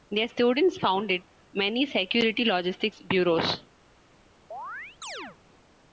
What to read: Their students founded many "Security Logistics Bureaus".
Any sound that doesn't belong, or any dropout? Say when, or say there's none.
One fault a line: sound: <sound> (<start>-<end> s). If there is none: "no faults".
sound: chirp (4.5-5.4 s)